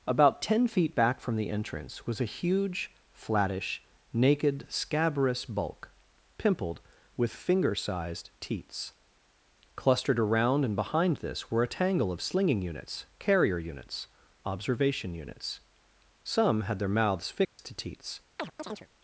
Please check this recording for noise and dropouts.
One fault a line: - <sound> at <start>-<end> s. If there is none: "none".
- dropout at 17.4-17.6 s
- chirp at 18.4-18.9 s